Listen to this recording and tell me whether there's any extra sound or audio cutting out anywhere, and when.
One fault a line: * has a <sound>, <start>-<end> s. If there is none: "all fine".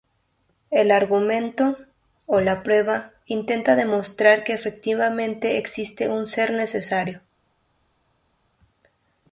all fine